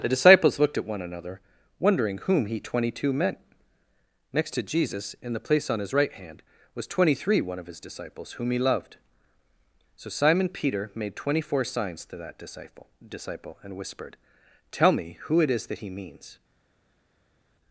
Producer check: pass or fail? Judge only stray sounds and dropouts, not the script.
pass